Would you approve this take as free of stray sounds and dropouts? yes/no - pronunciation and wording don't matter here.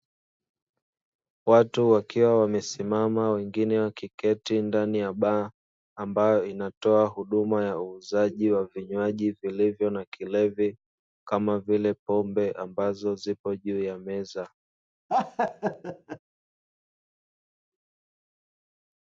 no